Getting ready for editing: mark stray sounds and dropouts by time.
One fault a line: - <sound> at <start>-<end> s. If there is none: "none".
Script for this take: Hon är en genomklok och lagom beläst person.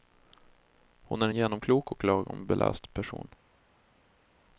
none